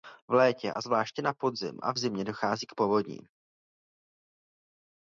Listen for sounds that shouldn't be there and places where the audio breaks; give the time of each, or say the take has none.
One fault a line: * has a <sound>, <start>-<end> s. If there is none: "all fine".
all fine